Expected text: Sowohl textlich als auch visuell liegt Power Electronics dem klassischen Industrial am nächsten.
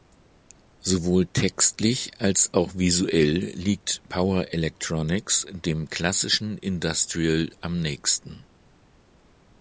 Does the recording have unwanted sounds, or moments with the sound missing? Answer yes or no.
no